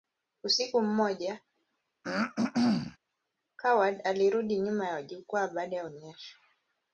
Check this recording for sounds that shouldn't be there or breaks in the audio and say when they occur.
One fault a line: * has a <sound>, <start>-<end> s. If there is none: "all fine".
* has a throat clearing, 2.0-3.0 s